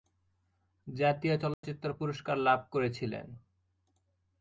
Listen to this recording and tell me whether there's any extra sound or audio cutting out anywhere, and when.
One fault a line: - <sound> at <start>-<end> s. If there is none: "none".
- dropout at 1.5-1.6 s